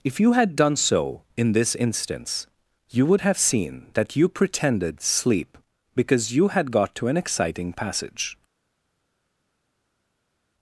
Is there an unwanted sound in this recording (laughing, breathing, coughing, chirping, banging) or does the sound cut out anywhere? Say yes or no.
no